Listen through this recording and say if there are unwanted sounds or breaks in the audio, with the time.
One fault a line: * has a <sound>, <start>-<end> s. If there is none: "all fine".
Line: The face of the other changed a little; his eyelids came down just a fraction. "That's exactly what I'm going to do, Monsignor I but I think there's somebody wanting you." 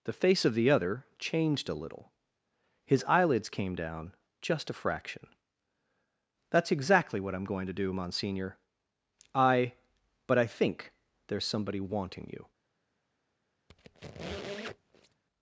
* has a squeak, 13.7-15.2 s